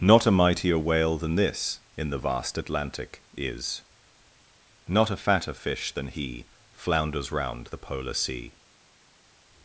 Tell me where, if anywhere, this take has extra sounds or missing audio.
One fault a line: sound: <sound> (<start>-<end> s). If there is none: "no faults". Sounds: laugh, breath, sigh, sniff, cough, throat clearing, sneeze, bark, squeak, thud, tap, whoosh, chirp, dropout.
no faults